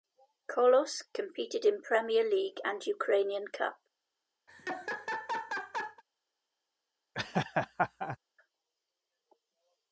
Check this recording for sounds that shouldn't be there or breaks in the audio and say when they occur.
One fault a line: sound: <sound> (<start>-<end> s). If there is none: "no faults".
sound: laugh (4.5-6.0 s)
sound: laugh (7.1-8.2 s)